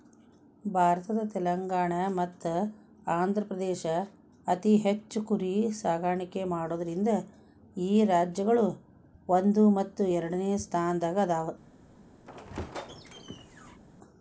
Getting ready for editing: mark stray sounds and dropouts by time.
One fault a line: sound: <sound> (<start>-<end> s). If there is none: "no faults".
sound: squeak (12.3-13.8 s)